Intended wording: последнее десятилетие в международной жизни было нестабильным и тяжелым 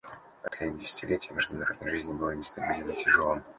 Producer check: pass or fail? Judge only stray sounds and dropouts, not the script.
fail